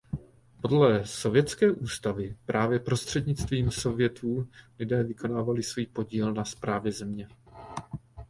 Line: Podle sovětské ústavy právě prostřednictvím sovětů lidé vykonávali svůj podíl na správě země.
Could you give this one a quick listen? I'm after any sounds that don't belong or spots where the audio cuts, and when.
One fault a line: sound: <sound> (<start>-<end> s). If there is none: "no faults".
no faults